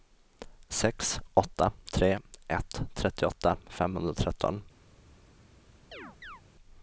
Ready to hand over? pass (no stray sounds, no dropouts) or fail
fail